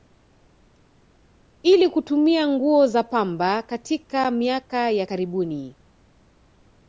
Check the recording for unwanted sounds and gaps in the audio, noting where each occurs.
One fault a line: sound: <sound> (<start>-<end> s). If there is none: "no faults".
no faults